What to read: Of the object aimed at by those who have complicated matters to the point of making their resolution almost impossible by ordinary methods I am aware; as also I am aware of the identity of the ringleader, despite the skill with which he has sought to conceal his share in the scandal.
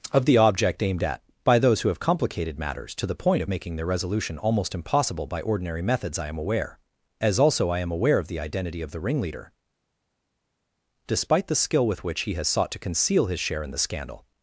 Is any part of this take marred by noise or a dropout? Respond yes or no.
no